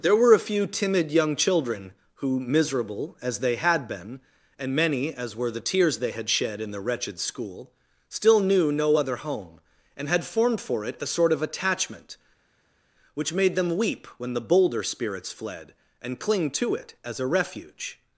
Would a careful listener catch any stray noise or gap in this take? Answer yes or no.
no